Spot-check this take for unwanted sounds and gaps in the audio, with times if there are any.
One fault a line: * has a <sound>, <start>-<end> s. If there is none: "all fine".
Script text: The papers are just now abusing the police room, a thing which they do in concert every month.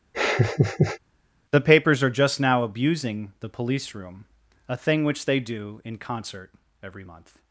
* has a laugh, 0.1-1.0 s